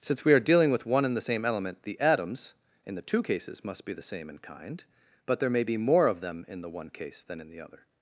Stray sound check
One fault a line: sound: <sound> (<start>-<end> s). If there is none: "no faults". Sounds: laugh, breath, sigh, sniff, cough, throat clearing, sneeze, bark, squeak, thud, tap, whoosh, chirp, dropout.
no faults